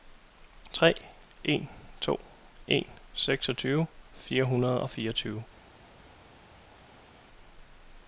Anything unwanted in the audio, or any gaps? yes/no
no